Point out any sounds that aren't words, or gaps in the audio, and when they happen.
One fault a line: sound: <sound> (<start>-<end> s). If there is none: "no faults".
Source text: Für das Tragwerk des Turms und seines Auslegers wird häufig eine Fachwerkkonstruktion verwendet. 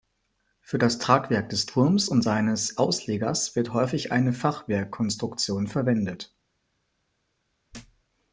sound: thud (7.7-8.0 s)